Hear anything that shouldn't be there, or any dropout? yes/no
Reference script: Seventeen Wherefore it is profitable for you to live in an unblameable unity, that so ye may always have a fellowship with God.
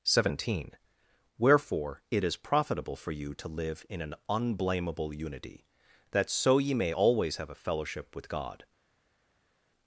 no